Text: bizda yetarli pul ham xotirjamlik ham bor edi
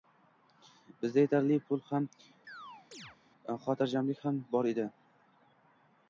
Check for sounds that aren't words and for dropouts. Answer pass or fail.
fail